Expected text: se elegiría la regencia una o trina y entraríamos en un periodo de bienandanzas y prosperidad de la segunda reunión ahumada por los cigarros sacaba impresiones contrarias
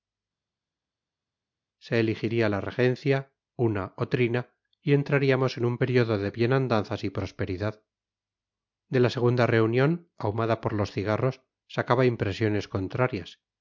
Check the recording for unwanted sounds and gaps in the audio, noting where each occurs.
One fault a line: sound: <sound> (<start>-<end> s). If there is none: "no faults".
no faults